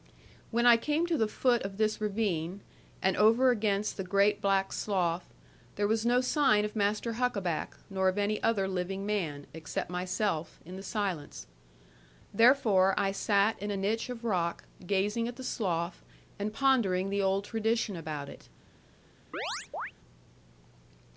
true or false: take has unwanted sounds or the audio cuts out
true